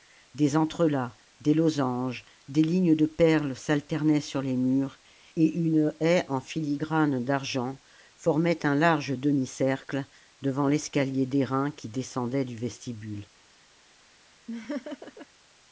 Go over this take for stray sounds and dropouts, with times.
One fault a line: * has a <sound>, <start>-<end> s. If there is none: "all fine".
* has a laugh, 14.5-15.3 s